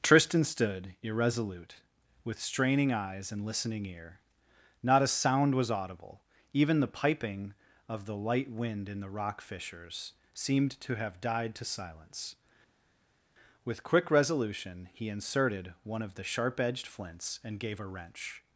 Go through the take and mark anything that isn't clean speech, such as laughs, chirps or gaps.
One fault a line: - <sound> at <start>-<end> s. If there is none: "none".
none